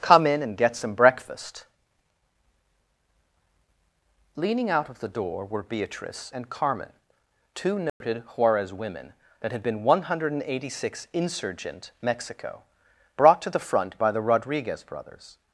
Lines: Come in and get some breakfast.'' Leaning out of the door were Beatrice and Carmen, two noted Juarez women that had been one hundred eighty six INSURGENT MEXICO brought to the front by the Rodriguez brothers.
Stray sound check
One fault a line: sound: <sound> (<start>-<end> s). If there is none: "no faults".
sound: dropout (7.9-8.0 s)